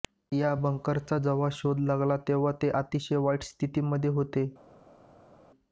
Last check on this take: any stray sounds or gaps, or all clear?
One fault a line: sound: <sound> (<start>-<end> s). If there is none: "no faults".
no faults